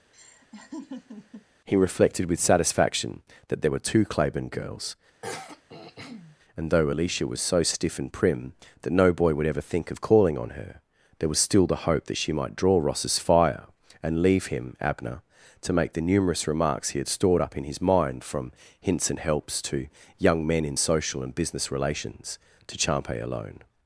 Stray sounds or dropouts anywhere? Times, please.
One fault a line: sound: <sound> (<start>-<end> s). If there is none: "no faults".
sound: laugh (0.1-1.5 s)
sound: throat clearing (5.2-6.4 s)